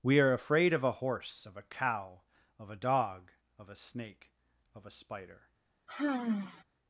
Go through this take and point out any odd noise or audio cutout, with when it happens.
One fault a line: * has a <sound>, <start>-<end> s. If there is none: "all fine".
* has a sigh, 5.9-6.6 s